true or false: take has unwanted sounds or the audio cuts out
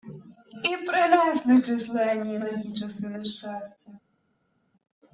false